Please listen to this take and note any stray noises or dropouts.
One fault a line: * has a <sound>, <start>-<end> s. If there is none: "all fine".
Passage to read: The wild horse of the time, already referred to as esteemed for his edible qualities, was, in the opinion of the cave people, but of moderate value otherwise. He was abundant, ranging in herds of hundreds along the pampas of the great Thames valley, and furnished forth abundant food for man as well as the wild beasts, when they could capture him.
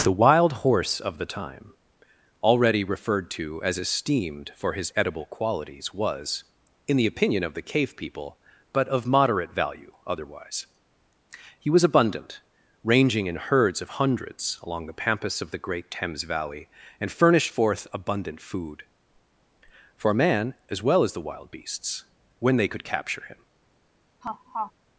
* has a laugh, 24.2-24.7 s